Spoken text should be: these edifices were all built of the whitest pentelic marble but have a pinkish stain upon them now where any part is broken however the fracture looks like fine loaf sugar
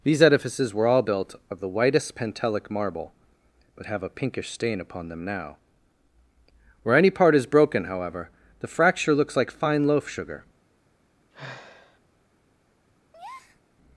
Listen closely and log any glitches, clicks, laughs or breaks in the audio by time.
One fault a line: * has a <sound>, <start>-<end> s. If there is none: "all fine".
* has a sigh, 11.3-12.0 s
* has a breath, 13.1-13.6 s